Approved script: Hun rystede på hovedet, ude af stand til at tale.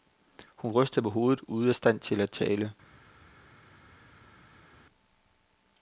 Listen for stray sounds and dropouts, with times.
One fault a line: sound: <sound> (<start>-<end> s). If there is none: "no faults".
no faults